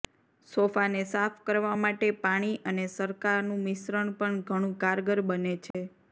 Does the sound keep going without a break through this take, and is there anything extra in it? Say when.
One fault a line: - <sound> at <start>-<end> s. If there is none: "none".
- dropout at 5.7-5.7 s